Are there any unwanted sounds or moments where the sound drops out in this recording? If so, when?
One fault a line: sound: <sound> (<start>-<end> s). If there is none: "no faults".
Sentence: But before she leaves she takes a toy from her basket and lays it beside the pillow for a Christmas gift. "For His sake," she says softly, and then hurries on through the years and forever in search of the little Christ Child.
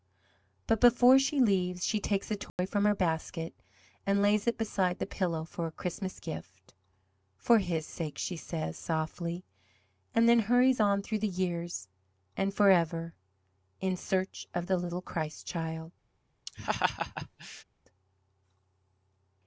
sound: dropout (2.5-2.6 s)
sound: laugh (16.5-17.6 s)